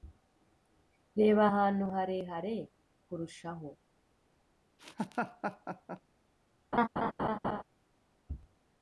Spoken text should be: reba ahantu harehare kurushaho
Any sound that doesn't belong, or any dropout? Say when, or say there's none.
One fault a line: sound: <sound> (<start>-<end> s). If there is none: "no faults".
sound: laugh (4.8-6.0 s)
sound: laugh (6.7-7.6 s)